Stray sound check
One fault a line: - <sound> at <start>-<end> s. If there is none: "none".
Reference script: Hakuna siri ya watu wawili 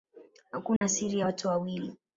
- dropout at 0.8-0.8 s